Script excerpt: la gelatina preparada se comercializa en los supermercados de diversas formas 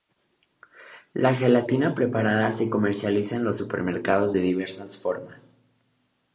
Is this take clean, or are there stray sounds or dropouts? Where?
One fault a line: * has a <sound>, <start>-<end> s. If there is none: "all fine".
all fine